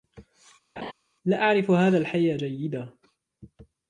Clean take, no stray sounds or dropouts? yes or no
no